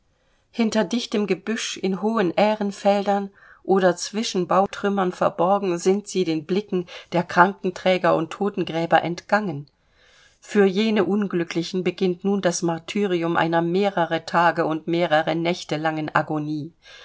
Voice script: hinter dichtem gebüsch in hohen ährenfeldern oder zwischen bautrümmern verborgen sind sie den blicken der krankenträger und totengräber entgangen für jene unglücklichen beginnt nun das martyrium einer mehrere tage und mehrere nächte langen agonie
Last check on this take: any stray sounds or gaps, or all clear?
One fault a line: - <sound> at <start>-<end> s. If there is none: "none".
none